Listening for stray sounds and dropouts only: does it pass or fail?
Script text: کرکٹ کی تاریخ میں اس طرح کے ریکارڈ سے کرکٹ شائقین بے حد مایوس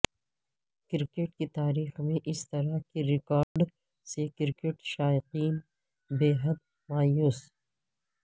fail